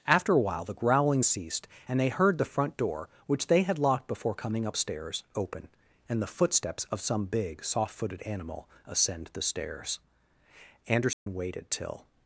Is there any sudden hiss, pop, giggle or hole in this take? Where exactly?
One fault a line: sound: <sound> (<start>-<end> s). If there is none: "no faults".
sound: dropout (11.1-11.3 s)